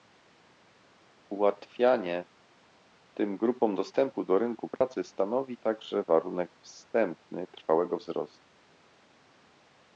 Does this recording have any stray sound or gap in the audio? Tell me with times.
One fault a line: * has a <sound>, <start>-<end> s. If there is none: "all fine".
* has a dropout, 4.8-4.8 s